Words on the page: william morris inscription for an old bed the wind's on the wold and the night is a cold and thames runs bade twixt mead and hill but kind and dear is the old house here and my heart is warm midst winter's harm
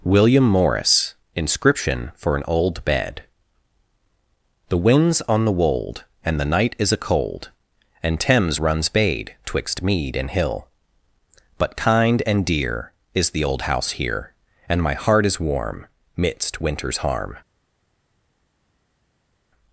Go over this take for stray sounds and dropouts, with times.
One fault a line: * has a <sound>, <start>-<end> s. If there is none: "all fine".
all fine